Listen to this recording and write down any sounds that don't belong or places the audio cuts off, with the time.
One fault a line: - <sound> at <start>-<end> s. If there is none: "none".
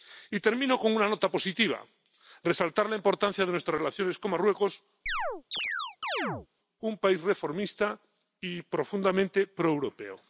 - chirp at 5.1-6.5 s